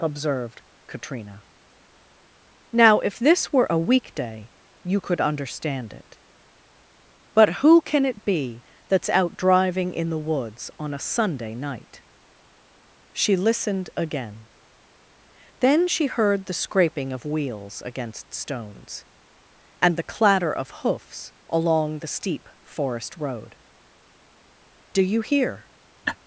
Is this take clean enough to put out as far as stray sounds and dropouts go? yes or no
no